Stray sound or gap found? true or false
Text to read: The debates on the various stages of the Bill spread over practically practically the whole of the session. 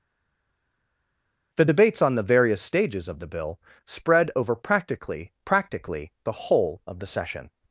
false